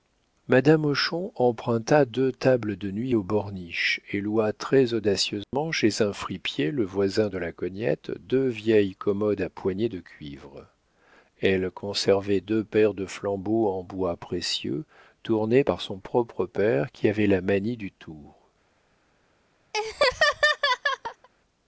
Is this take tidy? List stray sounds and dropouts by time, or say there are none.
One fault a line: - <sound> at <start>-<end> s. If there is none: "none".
- dropout at 5.4-5.5 s
- laugh at 19.7-21.3 s